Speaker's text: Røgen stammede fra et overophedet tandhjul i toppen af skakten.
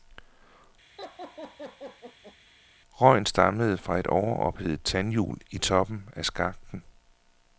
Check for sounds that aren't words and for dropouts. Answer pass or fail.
fail